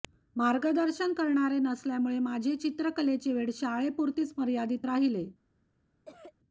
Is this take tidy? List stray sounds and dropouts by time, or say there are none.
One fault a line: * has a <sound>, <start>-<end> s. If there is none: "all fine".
* has a cough, 6.0-6.3 s